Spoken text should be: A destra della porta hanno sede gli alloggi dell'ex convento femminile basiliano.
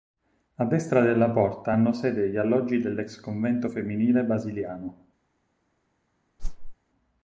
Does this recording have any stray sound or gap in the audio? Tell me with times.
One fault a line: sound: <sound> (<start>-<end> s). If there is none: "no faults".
sound: whoosh (6.4-6.8 s)